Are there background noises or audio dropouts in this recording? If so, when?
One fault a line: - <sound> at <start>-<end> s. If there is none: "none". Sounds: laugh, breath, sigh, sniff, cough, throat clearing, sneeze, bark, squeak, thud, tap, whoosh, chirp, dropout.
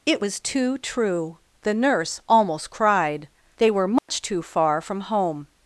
- dropout at 4.0-4.1 s